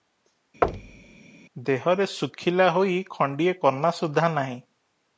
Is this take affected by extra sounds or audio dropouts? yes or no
yes